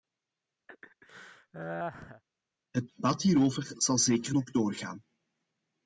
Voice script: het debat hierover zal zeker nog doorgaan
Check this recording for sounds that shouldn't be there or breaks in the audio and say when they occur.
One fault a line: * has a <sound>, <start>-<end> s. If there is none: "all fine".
* has a laugh, 0.7-2.2 s